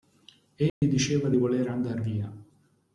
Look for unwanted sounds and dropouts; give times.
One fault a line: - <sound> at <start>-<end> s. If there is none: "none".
- dropout at 0.7-0.8 s